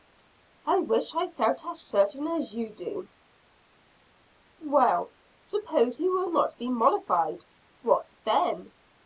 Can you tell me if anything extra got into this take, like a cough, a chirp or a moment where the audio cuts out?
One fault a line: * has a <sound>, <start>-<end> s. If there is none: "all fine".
all fine